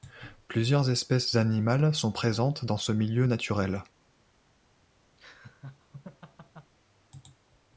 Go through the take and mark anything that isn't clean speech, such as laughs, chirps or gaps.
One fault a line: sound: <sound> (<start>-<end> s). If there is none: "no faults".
sound: laugh (5.2-6.7 s)